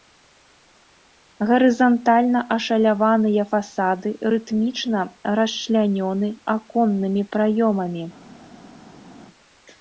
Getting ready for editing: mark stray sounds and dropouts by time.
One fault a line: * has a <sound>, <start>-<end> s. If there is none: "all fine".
all fine